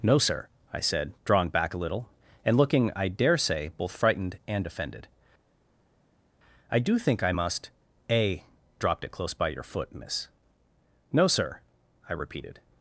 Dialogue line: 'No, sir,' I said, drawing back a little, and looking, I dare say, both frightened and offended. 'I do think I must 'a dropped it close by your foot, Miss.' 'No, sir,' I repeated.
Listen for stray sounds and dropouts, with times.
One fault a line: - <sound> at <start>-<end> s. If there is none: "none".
none